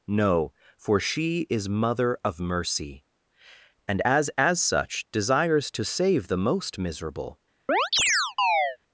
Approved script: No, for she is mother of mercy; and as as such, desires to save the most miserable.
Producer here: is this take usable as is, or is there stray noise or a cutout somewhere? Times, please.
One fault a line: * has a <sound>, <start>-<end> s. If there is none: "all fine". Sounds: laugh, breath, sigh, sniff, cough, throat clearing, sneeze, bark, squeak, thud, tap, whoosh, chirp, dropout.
* has a chirp, 7.7-8.8 s